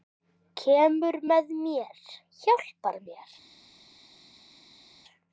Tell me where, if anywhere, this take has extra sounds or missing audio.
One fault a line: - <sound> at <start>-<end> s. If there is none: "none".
none